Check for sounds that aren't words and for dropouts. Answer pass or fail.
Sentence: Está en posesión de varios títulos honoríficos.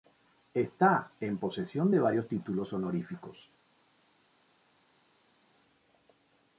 pass